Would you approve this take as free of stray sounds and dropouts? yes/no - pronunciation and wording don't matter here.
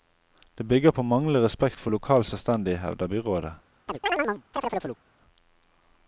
no